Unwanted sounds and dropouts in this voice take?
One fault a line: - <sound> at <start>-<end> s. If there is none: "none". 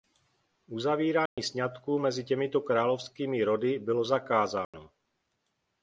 - dropout at 1.3-1.4 s
- dropout at 4.6-4.7 s